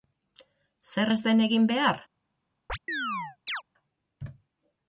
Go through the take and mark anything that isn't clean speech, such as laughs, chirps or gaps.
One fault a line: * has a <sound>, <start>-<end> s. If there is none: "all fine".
* has a chirp, 2.7-3.6 s